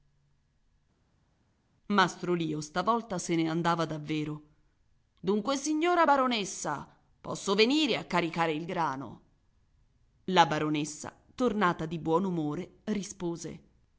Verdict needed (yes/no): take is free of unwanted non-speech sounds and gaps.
yes